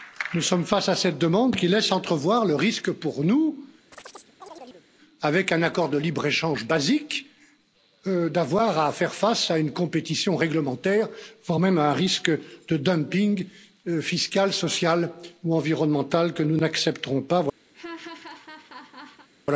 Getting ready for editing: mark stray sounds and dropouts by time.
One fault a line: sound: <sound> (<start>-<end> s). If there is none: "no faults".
sound: chirp (3.9-4.9 s)
sound: laugh (17.7-19.3 s)